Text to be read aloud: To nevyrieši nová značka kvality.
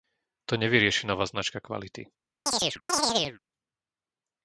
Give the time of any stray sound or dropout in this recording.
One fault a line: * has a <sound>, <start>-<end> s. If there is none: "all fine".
* has a chirp, 2.5-3.4 s